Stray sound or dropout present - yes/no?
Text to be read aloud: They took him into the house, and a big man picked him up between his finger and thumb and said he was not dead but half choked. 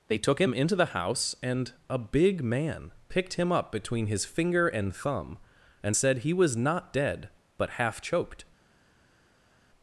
no